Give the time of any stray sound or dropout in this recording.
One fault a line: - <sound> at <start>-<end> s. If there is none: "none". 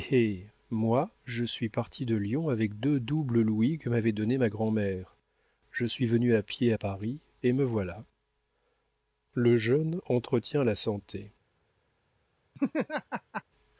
- laugh at 12.5-13.4 s